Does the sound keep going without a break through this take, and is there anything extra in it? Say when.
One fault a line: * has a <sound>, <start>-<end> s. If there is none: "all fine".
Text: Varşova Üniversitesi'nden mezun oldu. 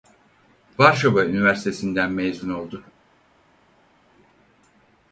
all fine